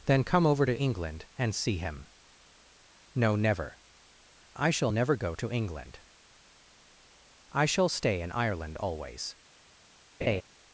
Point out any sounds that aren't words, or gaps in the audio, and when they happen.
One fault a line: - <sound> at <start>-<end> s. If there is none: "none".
- laugh at 10.2-10.4 s